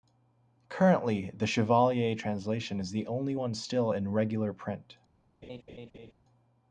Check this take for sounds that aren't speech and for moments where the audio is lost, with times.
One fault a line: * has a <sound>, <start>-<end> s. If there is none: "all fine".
* has a laugh, 5.4-6.1 s